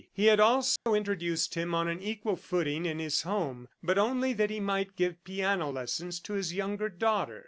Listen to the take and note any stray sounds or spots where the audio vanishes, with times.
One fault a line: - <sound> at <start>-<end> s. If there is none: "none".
- dropout at 0.8-0.9 s